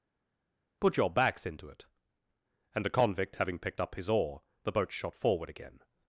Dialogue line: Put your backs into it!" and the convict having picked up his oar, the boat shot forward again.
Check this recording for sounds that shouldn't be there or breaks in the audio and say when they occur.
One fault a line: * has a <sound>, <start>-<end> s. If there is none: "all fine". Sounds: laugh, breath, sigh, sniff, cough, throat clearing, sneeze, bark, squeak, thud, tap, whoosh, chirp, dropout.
all fine